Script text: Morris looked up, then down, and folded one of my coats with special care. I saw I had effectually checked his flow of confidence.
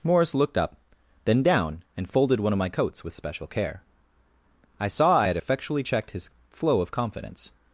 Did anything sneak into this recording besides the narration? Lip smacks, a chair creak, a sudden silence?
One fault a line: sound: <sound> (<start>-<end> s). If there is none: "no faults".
no faults